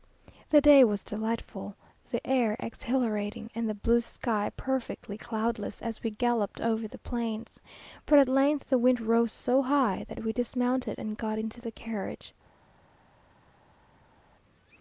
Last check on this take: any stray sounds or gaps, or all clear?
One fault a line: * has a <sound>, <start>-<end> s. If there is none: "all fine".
all fine